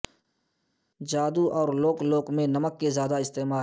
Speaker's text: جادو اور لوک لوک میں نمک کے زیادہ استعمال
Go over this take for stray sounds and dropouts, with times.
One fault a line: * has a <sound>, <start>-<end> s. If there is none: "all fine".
all fine